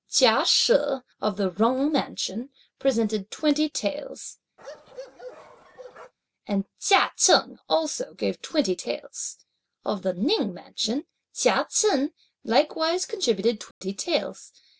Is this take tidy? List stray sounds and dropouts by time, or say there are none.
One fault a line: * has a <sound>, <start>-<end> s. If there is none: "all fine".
* has a bark, 4.6-6.1 s
* has a dropout, 13.7-13.8 s